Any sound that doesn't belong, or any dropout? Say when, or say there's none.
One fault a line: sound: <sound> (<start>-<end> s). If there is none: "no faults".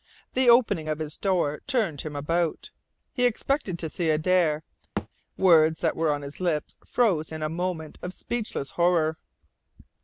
sound: thud (5.0-5.1 s)